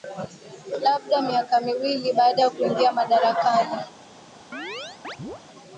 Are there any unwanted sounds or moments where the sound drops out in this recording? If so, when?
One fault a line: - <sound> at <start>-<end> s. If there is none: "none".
- chirp at 4.5-5.4 s